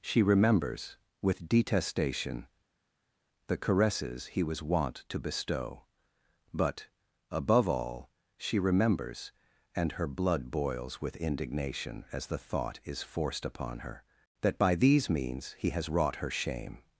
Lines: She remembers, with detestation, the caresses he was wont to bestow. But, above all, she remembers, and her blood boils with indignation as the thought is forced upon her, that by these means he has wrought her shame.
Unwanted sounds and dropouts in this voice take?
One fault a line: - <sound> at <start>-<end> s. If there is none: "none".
none